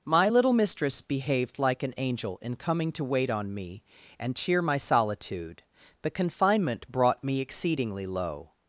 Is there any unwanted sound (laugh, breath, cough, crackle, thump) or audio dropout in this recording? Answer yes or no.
no